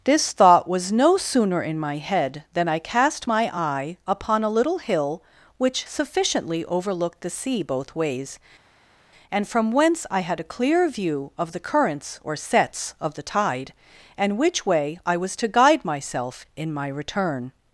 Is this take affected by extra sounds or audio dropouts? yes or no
no